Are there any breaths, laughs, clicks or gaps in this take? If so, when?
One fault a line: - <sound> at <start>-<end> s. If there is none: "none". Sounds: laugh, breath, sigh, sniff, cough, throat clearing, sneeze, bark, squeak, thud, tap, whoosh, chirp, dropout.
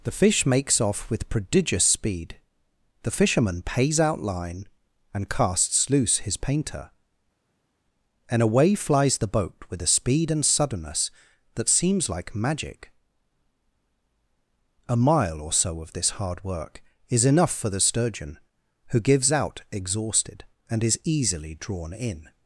none